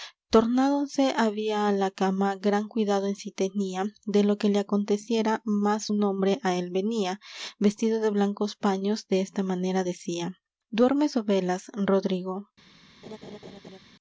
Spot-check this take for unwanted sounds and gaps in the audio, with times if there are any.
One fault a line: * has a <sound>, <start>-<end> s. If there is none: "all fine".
* has a laugh, 13.0-13.8 s